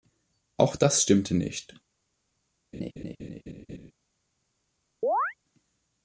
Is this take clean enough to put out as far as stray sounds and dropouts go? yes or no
no